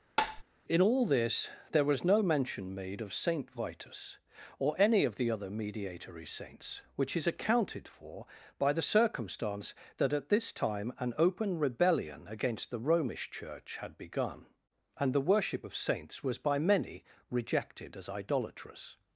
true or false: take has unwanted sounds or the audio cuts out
true